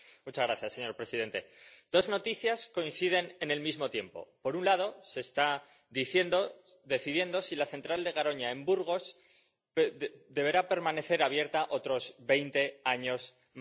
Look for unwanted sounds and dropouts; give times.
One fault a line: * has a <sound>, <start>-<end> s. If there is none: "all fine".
all fine